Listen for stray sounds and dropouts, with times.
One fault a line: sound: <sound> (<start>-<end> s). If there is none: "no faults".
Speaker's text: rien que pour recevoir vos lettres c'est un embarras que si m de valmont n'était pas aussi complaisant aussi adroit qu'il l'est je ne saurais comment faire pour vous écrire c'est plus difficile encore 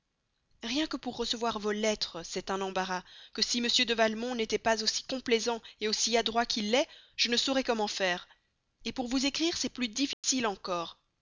sound: dropout (10.1-10.2 s)